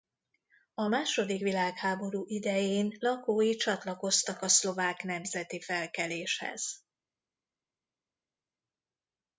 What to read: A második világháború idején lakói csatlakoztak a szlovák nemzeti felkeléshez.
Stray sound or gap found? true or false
false